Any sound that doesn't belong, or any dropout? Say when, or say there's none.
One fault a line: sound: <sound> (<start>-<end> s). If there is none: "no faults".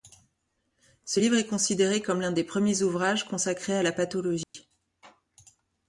sound: dropout (4.4-4.5 s)